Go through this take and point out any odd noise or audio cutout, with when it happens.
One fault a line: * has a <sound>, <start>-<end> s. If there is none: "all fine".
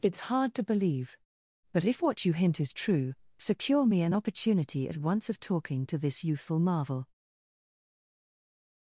all fine